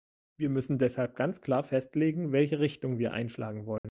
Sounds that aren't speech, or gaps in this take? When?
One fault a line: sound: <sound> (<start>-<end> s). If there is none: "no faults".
sound: dropout (3.8-3.8 s)